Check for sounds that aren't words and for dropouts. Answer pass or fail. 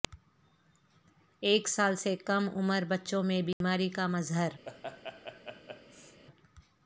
fail